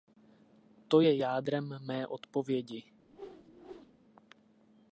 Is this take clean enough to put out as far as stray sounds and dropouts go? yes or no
no